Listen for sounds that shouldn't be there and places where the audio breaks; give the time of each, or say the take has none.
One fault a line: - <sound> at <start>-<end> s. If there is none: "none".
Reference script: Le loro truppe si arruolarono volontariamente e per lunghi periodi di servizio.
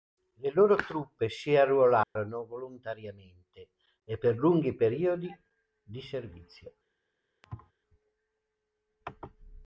- dropout at 2.0-2.2 s
- thud at 7.4-7.7 s